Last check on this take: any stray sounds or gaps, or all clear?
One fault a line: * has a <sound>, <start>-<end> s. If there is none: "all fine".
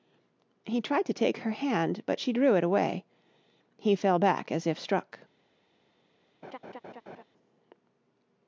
* has a laugh, 6.4-7.2 s